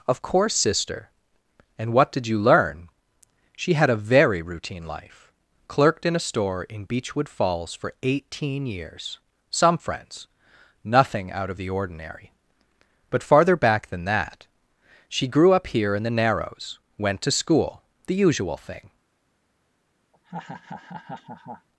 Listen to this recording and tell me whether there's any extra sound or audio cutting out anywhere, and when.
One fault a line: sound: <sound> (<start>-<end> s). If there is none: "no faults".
sound: laugh (20.1-21.7 s)